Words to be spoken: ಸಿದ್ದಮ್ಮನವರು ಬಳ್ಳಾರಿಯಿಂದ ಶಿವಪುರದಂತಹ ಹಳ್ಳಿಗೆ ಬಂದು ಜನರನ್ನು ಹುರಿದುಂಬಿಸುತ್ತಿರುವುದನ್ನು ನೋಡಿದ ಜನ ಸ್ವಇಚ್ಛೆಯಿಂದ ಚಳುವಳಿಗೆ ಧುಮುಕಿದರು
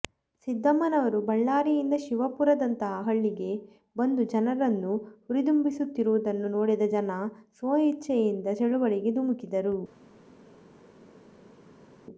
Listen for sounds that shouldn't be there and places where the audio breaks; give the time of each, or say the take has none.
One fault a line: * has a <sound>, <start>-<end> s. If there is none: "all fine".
all fine